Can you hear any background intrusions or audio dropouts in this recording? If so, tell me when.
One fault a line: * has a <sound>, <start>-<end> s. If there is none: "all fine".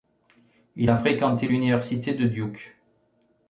all fine